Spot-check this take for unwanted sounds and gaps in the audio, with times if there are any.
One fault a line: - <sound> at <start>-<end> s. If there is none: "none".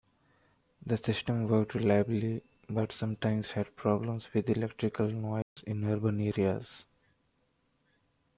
- dropout at 5.4-5.6 s